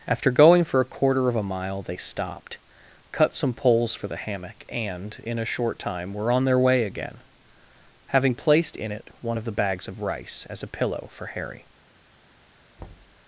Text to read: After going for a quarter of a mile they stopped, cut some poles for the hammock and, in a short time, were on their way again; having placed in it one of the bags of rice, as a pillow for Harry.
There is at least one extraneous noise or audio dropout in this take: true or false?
true